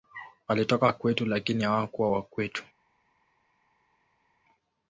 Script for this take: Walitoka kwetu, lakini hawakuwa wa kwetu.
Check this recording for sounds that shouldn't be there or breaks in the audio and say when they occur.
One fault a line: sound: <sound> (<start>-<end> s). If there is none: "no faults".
no faults